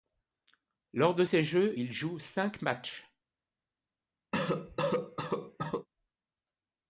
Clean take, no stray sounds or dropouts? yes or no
no